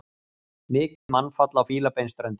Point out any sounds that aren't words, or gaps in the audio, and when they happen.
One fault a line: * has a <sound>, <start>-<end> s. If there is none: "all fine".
* has a dropout, 1.0-1.1 s